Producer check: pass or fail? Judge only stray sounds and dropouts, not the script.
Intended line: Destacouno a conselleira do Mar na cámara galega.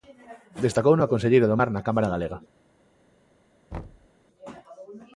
fail